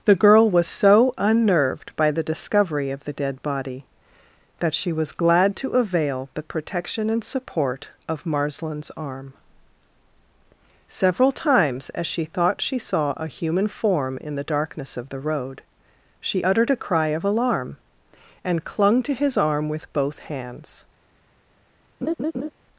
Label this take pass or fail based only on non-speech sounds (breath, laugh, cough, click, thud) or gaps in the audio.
fail